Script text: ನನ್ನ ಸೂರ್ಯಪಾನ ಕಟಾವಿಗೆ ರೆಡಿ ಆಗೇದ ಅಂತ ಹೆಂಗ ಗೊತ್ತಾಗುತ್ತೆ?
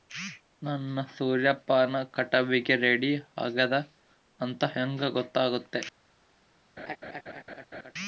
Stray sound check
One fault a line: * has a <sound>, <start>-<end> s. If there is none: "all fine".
* has a laugh, 6.8-7.9 s